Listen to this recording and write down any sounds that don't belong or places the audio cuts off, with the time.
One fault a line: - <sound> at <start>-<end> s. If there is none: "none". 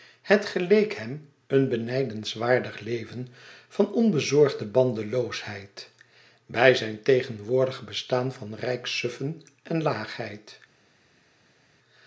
none